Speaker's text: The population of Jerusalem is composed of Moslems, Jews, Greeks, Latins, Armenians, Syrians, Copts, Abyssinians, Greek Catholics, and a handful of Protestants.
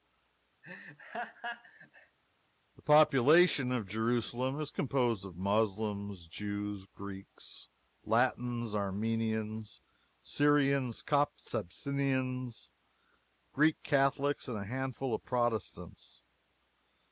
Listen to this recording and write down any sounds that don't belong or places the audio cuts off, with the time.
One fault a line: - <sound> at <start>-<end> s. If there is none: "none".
- laugh at 0.6-2.2 s